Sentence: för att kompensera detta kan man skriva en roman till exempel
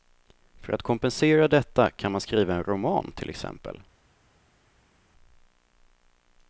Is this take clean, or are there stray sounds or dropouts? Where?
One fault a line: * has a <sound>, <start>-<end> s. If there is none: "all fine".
all fine